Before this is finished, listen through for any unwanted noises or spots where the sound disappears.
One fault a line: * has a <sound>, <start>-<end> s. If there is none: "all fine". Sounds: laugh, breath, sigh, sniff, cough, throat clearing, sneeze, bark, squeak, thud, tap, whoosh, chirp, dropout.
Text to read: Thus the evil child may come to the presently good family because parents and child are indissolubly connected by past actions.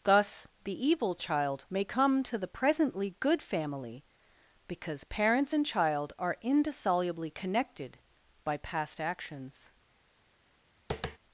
* has a tap, 10.9-11.2 s